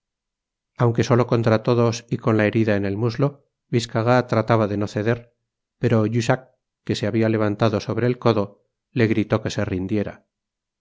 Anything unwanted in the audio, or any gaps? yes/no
no